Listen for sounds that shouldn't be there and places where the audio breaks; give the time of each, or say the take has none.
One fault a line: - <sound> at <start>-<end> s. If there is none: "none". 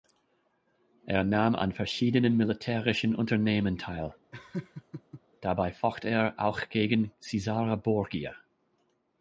- laugh at 4.3-5.2 s